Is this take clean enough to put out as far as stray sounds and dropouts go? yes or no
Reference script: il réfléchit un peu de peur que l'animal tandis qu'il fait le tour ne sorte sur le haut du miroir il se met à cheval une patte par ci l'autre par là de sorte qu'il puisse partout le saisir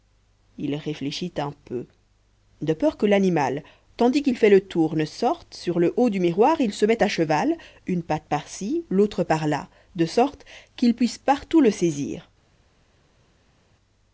yes